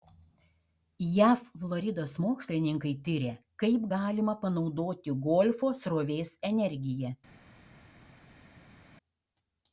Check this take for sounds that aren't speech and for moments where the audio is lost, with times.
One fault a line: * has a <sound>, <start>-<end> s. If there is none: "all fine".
all fine